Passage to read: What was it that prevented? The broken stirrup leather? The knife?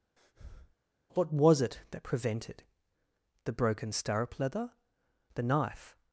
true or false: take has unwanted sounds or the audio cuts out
true